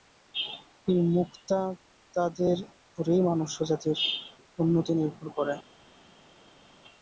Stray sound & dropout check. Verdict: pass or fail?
pass